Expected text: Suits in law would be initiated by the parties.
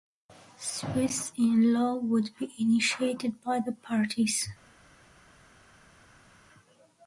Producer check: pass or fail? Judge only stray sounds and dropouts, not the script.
pass